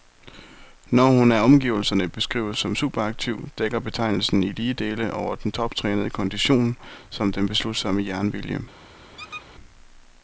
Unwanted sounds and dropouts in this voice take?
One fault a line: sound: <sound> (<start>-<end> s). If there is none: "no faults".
sound: squeak (9.2-9.5 s)